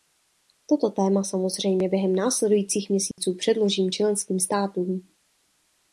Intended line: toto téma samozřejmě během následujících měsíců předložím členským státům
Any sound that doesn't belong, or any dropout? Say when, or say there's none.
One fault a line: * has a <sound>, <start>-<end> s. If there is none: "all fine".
* has a dropout, 3.1-3.2 s